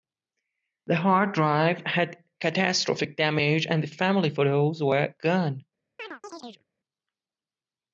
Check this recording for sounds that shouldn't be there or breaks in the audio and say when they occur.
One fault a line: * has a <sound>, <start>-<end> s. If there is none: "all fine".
* has a chirp, 6.0-6.6 s